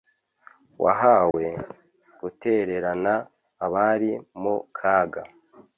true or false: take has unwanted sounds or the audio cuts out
true